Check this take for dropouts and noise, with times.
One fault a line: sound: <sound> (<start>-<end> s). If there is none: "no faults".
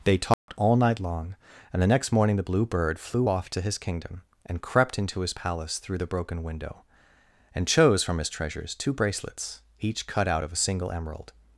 sound: dropout (0.3-0.5 s)